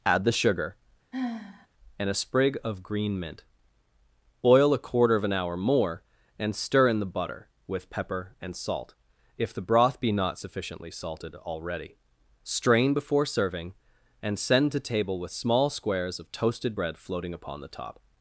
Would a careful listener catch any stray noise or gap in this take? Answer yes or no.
yes